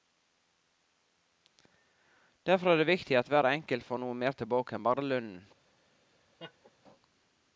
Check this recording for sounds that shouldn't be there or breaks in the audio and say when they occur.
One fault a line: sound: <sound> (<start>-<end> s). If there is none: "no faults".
sound: laugh (6.4-6.7 s)